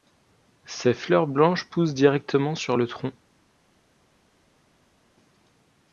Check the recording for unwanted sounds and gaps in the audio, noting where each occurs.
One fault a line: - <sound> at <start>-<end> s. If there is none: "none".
none